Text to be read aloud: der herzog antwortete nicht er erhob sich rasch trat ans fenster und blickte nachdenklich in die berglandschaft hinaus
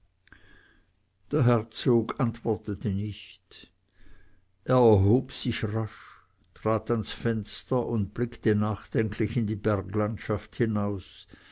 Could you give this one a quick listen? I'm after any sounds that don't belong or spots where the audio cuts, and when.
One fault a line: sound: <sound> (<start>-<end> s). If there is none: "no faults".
no faults